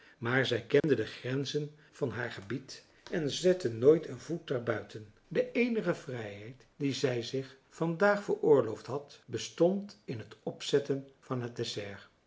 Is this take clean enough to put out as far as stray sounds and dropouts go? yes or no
no